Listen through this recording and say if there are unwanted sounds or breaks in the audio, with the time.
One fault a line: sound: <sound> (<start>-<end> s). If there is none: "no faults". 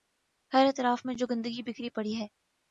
no faults